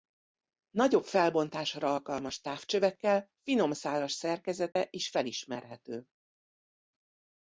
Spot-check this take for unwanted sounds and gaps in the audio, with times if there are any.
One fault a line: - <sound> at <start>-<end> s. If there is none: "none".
- dropout at 4.7-4.8 s